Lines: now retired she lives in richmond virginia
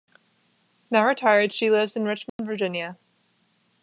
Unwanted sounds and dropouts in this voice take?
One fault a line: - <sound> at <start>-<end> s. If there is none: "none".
- dropout at 2.3-2.4 s